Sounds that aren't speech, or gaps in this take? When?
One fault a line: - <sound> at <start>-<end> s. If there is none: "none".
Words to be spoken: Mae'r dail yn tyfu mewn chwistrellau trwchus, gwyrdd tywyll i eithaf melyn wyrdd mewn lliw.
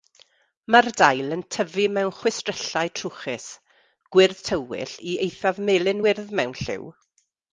none